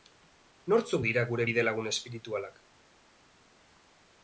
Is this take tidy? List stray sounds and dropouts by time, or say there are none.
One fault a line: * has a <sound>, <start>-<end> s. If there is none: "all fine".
all fine